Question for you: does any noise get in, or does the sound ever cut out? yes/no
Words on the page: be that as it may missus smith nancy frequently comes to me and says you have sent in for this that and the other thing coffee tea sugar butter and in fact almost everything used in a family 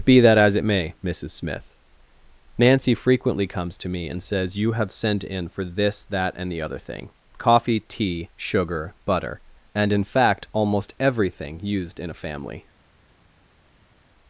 no